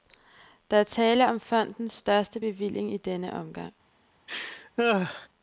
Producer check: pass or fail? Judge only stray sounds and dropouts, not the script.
fail